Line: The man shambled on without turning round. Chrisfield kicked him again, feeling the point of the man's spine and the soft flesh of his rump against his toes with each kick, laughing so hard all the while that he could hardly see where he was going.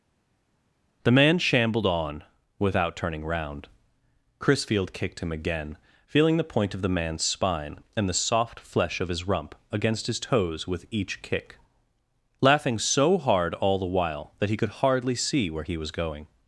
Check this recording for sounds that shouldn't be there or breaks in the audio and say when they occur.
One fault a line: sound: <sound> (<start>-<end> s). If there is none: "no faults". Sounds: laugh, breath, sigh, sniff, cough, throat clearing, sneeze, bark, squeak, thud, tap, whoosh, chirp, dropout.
no faults